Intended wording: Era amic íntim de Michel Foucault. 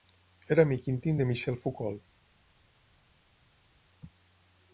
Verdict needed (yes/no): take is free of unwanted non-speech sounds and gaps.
yes